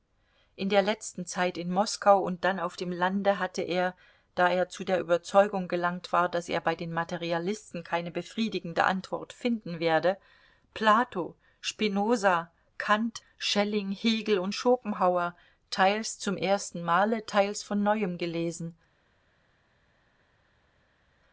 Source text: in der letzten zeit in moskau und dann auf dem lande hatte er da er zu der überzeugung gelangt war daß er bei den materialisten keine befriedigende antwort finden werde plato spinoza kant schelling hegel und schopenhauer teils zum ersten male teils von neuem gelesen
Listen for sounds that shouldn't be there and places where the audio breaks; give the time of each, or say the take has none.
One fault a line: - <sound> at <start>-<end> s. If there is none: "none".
none